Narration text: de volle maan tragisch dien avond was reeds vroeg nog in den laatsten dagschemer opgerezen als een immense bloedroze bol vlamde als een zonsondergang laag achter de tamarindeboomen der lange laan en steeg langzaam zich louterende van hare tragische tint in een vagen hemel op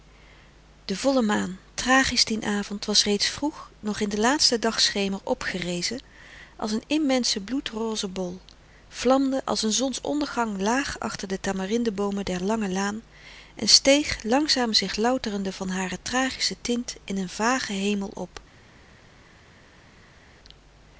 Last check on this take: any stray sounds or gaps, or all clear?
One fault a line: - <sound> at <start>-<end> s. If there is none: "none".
none